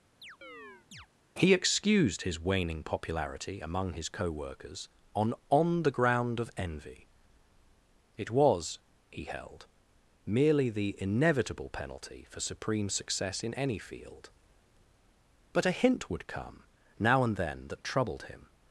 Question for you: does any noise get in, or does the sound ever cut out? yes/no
yes